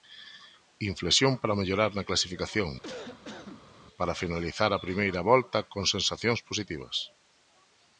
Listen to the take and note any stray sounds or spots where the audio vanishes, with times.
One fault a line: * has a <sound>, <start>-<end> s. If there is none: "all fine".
* has a cough, 2.8-3.7 s